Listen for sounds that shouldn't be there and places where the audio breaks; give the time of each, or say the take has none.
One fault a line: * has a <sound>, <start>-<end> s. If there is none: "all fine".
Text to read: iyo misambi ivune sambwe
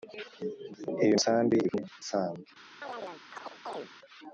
* has a chirp, 2.8-3.9 s